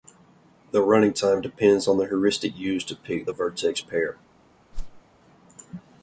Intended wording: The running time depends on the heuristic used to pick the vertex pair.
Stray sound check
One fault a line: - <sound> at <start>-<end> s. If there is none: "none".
- whoosh at 4.7-5.0 s